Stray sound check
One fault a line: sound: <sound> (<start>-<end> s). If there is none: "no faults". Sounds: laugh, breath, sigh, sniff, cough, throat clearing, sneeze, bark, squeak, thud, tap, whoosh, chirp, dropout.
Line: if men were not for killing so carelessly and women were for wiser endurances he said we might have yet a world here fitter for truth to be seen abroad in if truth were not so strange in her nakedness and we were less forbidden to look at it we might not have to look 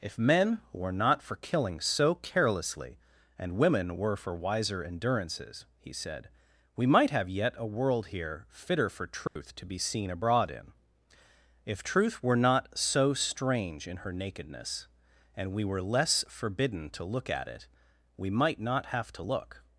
sound: dropout (9.3-9.4 s)